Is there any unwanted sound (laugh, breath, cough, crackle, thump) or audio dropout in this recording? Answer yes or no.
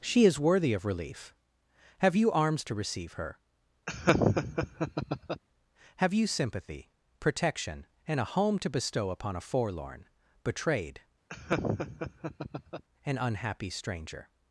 yes